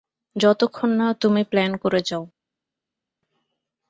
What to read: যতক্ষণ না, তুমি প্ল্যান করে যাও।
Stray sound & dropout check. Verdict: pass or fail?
pass